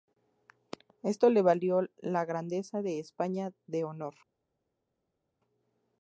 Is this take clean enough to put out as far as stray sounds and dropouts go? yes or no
yes